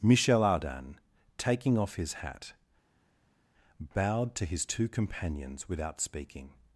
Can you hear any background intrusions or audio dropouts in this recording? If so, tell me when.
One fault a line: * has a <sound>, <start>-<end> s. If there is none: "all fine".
all fine